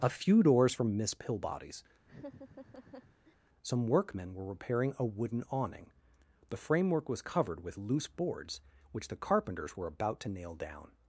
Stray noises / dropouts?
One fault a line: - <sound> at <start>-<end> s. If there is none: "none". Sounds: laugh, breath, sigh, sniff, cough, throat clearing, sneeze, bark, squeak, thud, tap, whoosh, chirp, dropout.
- laugh at 2.0-3.4 s